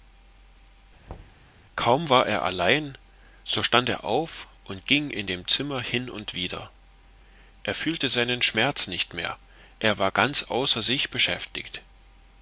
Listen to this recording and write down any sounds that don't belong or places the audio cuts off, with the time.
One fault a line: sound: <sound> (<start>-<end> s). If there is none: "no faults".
sound: thud (1.1-1.5 s)